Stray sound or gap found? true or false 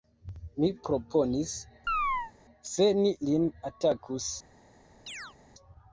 true